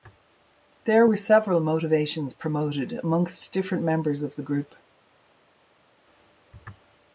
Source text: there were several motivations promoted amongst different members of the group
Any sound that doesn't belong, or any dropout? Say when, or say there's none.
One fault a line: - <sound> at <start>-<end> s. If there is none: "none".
none